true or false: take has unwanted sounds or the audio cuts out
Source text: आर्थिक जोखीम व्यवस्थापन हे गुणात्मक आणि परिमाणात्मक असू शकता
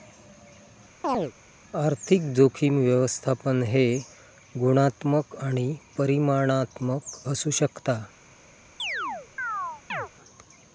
true